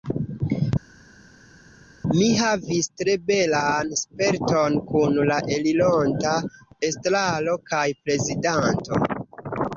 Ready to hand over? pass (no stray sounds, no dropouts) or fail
pass